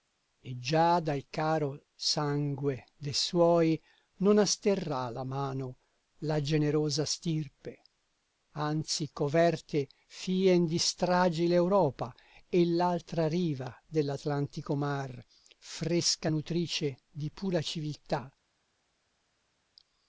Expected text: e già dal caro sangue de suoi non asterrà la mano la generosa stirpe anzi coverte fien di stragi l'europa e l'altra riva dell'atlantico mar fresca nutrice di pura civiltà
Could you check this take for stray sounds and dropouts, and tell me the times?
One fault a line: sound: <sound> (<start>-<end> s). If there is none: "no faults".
no faults